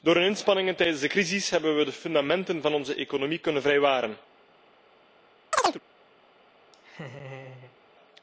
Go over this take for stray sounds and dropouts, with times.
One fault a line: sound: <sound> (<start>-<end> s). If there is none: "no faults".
sound: chirp (5.5-5.8 s)
sound: laugh (6.7-7.8 s)